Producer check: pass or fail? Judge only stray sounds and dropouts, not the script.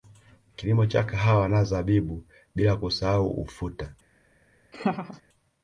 fail